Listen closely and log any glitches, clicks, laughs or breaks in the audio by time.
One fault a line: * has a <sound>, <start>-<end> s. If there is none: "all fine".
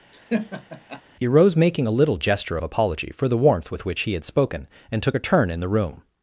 * has a laugh, 0.1-1.0 s